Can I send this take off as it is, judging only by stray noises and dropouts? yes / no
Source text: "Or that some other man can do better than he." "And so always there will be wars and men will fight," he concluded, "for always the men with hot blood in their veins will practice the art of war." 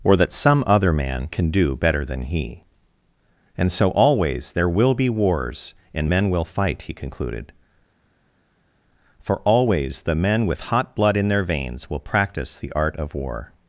yes